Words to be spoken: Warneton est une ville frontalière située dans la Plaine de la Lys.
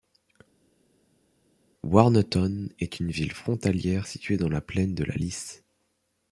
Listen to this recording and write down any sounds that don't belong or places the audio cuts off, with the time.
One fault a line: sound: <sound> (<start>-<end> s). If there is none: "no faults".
no faults